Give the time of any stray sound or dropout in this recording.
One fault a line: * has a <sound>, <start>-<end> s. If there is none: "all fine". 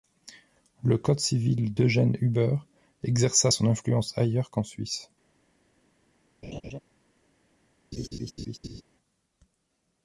* has a laugh, 6.4-6.8 s
* has a laugh, 7.9-8.8 s